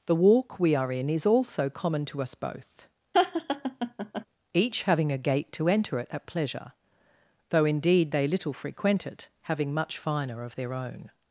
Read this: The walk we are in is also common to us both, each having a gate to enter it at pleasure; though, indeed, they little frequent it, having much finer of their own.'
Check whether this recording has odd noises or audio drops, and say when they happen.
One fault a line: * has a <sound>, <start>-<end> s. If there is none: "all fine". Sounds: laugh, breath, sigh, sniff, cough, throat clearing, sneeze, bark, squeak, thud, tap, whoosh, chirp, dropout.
* has a laugh, 3.1-4.3 s